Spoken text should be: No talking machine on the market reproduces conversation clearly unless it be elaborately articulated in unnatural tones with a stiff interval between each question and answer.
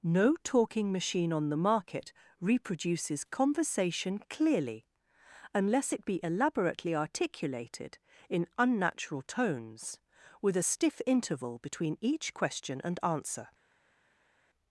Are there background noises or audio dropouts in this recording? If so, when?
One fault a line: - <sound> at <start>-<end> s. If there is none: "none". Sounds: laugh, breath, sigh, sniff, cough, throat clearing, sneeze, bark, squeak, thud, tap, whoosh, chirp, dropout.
none